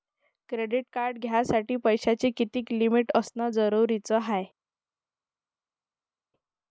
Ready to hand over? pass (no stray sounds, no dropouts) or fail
pass